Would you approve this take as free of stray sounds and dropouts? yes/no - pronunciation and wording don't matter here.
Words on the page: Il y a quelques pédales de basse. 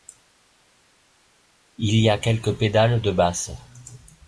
yes